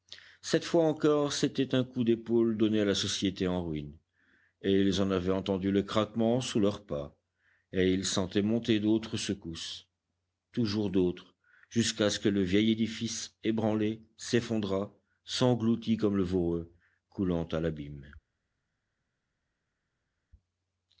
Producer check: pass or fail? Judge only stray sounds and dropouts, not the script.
pass